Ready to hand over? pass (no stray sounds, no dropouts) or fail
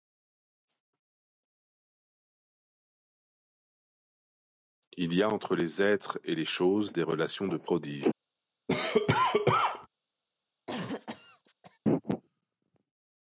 fail